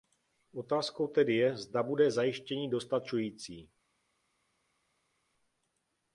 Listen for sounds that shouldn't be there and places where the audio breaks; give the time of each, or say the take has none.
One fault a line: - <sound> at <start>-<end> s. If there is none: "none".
none